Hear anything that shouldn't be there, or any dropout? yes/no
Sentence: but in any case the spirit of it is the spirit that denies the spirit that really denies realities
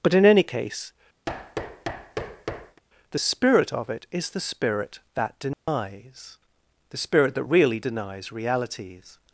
yes